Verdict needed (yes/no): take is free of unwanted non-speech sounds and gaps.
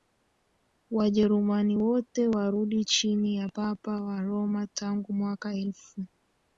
yes